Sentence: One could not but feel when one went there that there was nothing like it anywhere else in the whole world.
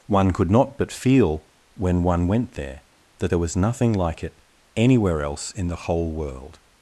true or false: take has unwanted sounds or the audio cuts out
false